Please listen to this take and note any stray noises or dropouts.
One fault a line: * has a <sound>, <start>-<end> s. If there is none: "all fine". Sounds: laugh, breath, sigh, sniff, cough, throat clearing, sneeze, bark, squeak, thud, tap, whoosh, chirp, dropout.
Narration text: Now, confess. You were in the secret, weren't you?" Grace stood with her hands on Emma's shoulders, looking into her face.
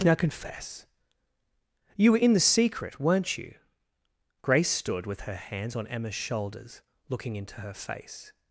all fine